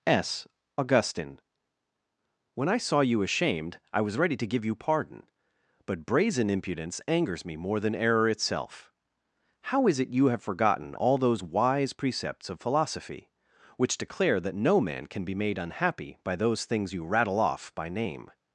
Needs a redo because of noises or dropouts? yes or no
no